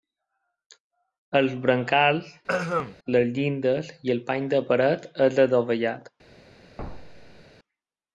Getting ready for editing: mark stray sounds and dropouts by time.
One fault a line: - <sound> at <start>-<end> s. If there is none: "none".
- throat clearing at 2.5-3.0 s
- thud at 6.8-7.4 s